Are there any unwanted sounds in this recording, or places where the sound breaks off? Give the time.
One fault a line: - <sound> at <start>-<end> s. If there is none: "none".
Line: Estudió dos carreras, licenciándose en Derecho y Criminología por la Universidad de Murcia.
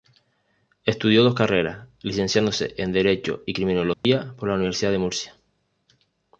- dropout at 3.9-4.0 s